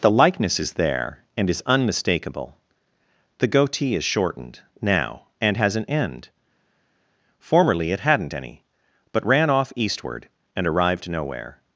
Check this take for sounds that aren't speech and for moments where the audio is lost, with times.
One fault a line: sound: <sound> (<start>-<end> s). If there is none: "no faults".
no faults